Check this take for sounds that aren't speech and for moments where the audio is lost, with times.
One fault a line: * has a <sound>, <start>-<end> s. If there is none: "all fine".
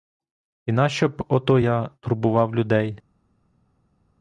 all fine